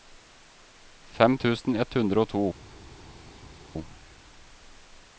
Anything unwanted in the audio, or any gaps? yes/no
no